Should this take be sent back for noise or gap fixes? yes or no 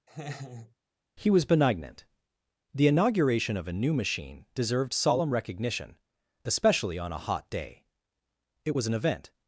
yes